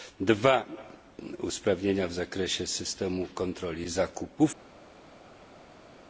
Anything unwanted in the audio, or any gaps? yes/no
no